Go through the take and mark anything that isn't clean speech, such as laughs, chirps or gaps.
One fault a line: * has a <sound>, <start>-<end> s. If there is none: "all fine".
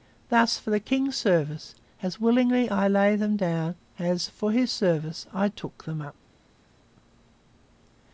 all fine